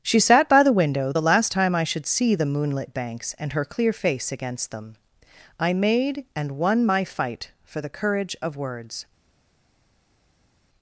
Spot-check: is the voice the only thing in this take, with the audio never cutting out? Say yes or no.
yes